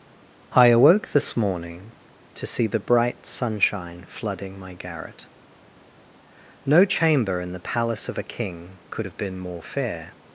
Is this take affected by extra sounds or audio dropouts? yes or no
no